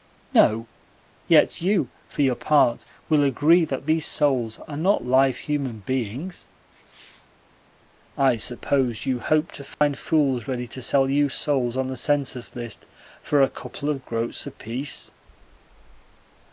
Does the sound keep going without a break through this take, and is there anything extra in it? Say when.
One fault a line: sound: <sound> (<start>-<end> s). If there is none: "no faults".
sound: dropout (9.7-9.8 s)